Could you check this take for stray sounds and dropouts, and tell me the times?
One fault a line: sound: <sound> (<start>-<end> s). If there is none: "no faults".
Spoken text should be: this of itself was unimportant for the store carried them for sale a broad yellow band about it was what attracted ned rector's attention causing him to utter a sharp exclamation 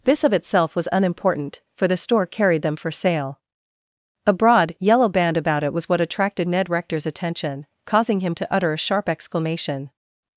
no faults